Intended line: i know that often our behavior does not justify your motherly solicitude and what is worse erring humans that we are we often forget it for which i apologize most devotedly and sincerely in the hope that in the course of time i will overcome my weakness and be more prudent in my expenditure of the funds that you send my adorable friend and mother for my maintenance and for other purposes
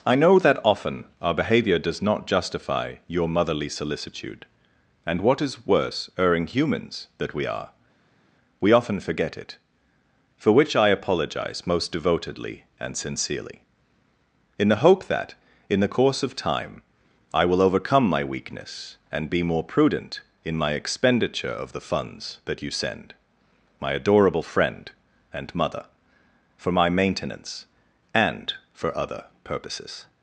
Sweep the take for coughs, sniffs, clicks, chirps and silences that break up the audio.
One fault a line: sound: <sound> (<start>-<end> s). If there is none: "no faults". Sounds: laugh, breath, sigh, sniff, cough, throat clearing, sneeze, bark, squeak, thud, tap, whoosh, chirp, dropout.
no faults